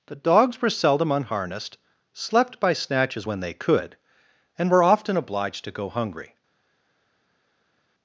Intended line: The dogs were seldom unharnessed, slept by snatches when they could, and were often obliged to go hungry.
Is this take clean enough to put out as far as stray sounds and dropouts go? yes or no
yes